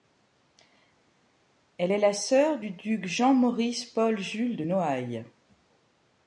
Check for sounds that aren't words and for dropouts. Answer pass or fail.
pass